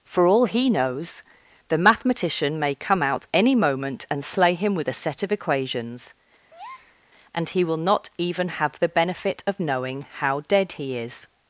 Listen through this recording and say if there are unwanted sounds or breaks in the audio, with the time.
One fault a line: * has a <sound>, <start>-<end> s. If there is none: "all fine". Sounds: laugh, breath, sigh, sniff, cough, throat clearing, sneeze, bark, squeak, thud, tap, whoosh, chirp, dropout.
* has a breath, 6.5-7.0 s